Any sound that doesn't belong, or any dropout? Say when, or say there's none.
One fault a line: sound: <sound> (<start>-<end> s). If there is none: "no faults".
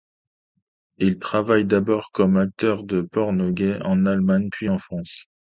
no faults